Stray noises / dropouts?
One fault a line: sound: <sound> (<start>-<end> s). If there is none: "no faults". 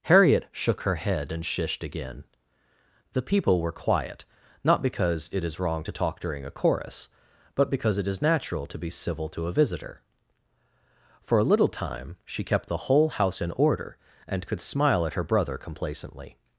no faults